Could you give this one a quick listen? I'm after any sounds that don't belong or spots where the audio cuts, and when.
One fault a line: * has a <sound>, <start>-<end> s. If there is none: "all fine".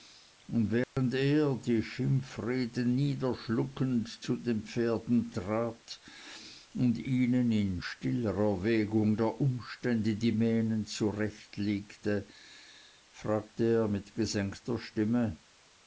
* has a dropout, 0.8-1.0 s